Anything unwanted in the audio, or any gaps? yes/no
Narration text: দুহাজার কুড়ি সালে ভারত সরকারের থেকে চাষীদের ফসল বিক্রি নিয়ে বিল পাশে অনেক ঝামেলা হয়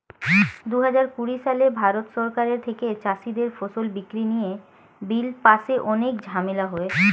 no